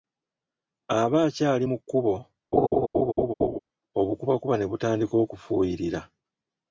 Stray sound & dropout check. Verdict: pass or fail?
fail